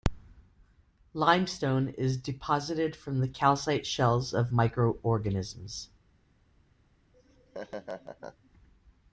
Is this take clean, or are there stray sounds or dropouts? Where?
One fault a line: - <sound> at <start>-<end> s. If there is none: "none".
- laugh at 7.1-8.5 s